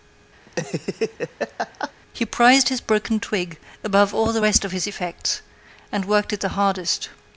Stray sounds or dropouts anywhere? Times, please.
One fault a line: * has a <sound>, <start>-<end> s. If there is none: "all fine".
* has a laugh, 0.5-1.9 s